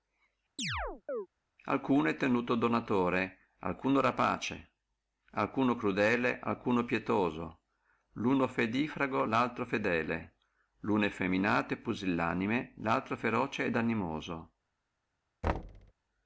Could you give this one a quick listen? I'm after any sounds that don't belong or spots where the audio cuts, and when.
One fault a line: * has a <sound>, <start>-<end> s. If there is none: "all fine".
* has a chirp, 0.6-1.3 s
* has a thud, 15.4-15.9 s